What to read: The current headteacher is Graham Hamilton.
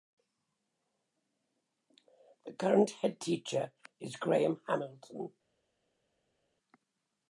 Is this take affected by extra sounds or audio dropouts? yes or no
no